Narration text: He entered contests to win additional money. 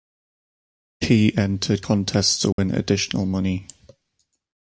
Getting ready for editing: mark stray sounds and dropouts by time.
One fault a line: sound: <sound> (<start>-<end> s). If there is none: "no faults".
sound: dropout (2.5-2.6 s)